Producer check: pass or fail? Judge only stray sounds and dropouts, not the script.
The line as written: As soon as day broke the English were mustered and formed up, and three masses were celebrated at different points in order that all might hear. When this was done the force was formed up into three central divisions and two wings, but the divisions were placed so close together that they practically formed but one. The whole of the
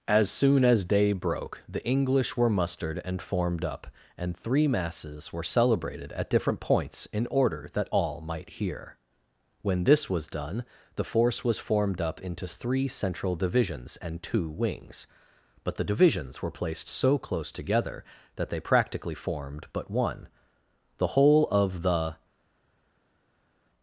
pass